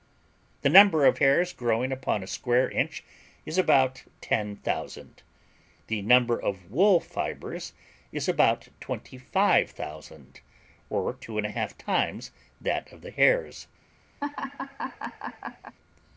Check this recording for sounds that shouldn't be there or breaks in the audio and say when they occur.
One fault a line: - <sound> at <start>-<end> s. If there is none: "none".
- laugh at 14.2-15.8 s